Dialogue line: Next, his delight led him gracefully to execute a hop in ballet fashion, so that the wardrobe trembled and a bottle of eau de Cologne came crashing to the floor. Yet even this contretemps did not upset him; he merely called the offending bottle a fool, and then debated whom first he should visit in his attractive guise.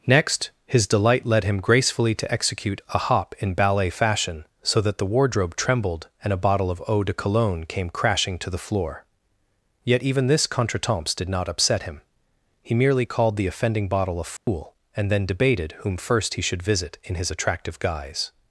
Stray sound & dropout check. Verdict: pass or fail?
fail